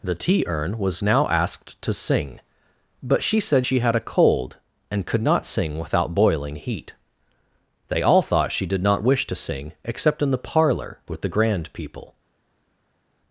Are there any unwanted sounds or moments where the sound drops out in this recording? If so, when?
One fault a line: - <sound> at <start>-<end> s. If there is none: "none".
none